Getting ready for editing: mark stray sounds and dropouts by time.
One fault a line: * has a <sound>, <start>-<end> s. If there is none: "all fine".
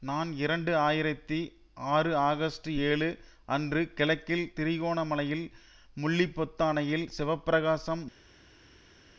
all fine